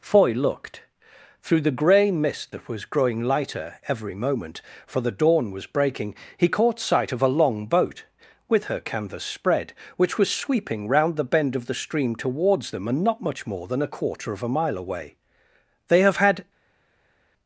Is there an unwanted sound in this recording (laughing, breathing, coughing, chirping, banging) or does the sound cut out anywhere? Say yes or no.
no